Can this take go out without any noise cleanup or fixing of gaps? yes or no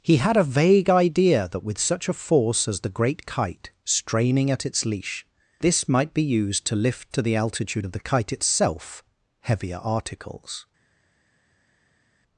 yes